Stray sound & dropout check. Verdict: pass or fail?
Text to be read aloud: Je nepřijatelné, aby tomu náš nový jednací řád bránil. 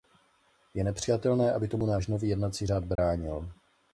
fail